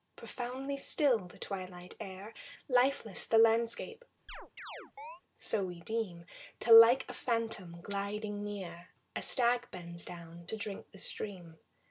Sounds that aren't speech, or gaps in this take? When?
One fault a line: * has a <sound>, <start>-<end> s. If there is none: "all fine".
* has a chirp, 4.3-5.2 s